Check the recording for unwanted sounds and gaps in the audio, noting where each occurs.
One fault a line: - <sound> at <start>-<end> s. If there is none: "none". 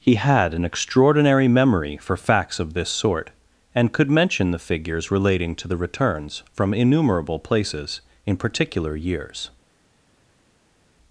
none